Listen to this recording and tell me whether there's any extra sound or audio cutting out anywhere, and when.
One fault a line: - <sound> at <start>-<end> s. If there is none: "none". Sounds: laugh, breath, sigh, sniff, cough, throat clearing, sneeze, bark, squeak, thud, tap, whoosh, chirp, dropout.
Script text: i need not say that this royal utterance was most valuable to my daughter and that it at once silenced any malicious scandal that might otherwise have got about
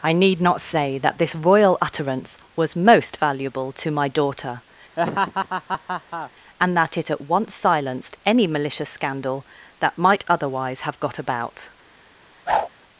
- laugh at 5.0-6.3 s
- whoosh at 12.5-12.7 s